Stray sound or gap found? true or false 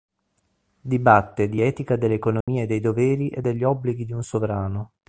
true